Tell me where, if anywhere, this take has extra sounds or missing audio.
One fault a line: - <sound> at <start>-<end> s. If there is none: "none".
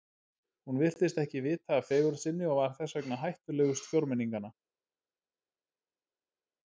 none